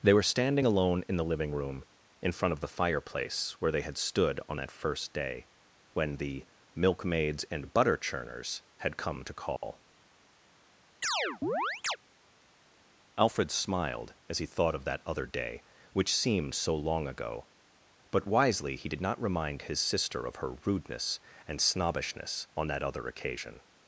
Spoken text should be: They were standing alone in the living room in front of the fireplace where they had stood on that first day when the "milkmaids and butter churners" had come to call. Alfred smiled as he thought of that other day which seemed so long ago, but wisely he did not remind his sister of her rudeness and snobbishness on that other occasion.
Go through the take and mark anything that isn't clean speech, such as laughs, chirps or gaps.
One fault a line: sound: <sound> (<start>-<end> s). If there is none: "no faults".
sound: dropout (9.6-9.6 s)
sound: chirp (11.0-12.0 s)